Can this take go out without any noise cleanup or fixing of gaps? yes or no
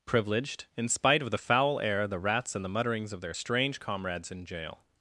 yes